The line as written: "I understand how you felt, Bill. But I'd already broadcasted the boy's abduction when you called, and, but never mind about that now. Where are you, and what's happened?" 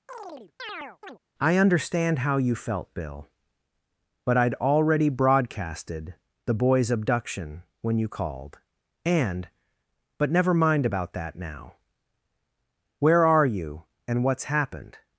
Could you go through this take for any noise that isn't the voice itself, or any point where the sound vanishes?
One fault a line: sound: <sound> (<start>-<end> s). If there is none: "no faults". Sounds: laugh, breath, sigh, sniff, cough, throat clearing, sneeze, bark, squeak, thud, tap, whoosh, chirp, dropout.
sound: chirp (0.1-1.2 s)